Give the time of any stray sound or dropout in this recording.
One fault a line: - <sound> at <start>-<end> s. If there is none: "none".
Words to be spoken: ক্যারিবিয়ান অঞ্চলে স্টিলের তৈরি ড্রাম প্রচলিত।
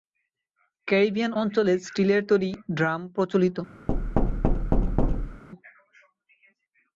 - thud at 3.9-5.4 s